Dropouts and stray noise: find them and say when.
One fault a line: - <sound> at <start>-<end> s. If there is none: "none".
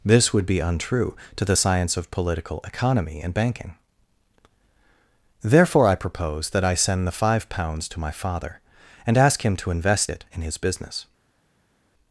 none